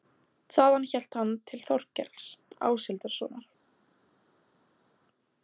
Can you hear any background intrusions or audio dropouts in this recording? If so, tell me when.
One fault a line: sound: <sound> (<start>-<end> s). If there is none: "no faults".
no faults